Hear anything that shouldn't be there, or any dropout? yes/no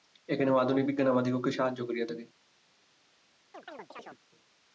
yes